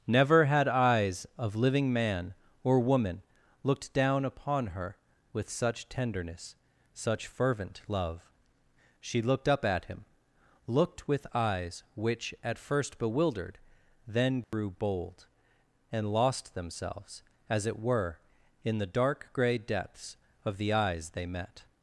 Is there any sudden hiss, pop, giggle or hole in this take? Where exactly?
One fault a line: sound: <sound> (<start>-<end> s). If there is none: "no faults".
sound: dropout (14.4-14.5 s)